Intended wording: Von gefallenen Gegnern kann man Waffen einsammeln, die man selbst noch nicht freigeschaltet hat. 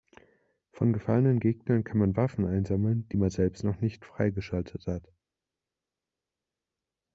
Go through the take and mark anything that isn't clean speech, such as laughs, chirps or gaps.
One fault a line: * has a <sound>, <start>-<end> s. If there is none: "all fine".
all fine